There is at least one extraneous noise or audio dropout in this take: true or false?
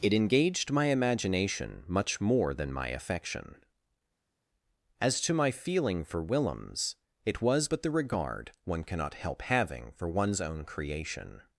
false